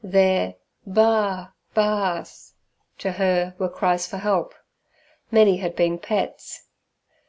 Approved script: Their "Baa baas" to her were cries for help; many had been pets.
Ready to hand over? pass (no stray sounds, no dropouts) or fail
pass